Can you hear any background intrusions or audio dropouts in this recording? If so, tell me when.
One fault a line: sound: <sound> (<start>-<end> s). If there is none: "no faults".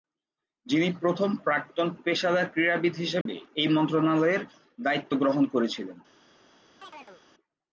sound: dropout (3.2-3.3 s)
sound: chirp (6.8-7.2 s)